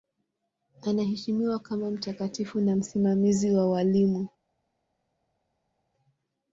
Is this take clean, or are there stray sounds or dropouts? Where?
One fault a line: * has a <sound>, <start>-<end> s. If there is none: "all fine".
all fine